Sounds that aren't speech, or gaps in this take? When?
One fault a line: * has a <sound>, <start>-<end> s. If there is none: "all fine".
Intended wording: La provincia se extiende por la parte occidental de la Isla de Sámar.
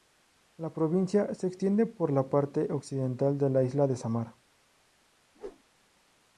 * has a whoosh, 5.3-5.6 s